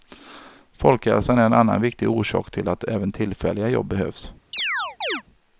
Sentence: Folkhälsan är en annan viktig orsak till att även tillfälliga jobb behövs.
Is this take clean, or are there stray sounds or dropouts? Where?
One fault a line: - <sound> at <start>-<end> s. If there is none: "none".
- chirp at 4.5-5.2 s